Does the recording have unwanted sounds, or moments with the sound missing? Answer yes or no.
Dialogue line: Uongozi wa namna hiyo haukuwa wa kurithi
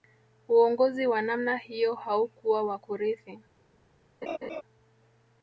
yes